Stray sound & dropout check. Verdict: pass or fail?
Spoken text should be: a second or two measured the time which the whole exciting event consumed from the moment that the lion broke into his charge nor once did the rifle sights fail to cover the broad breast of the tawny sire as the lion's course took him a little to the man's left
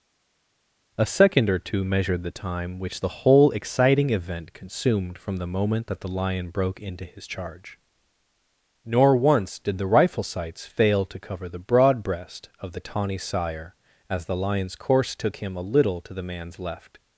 pass